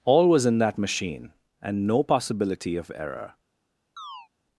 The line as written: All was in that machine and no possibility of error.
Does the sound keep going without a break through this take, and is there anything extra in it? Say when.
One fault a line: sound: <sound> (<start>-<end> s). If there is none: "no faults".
sound: chirp (4.0-4.3 s)